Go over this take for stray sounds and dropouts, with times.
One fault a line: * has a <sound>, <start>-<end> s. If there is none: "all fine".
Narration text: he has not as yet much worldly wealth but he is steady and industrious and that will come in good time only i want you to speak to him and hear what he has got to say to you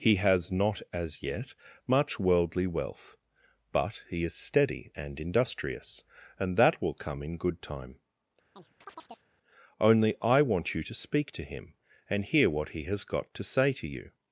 * has a chirp, 8.6-9.3 s